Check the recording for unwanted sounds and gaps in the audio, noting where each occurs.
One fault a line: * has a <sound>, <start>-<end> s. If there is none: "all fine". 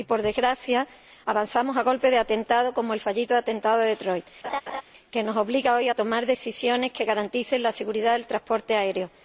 * has a laugh, 4.4-4.8 s